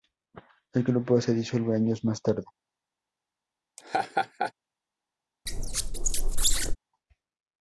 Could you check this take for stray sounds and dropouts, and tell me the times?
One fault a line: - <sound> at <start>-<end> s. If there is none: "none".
- laugh at 3.8-4.5 s
- squeak at 5.5-6.8 s